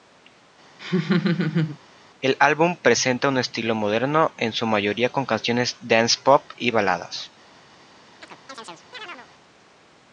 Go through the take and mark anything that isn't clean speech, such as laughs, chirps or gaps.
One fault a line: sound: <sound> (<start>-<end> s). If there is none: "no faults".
sound: laugh (0.8-1.8 s)
sound: chirp (8.2-9.3 s)